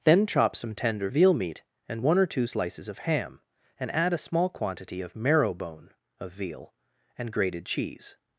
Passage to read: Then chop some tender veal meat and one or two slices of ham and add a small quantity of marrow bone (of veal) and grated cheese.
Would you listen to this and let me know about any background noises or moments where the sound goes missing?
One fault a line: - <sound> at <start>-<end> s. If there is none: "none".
none